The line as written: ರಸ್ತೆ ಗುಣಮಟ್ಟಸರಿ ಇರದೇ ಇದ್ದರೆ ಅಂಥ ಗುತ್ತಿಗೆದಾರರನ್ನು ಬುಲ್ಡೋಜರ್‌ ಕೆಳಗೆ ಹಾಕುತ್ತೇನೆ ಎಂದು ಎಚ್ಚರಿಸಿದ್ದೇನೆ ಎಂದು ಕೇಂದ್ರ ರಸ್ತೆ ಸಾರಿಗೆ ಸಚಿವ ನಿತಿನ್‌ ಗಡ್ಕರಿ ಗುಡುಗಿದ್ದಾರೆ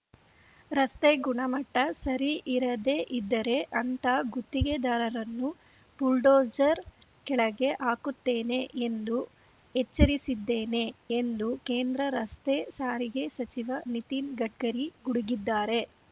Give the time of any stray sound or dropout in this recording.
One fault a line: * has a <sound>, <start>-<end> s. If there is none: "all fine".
all fine